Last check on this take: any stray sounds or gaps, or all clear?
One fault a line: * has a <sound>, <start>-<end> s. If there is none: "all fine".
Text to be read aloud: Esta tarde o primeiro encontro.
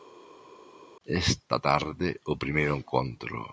all fine